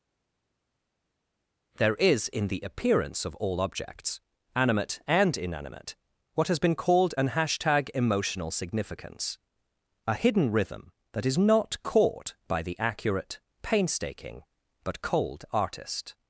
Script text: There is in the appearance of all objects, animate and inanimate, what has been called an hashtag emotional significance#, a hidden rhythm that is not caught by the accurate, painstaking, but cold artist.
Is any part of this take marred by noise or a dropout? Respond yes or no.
no